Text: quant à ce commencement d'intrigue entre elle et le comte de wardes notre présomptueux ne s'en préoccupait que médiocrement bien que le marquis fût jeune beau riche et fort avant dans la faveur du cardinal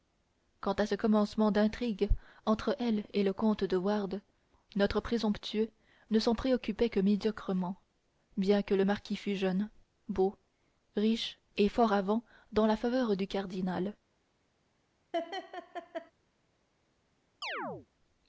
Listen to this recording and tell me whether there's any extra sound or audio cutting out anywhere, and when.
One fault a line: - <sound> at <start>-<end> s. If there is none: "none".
- laugh at 15.1-16.1 s
- chirp at 17.4-17.9 s